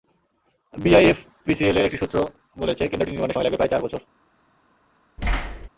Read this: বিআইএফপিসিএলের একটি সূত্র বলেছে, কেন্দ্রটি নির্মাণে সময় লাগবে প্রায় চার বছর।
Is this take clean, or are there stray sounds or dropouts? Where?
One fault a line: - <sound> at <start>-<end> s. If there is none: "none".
- thud at 5.2-5.7 s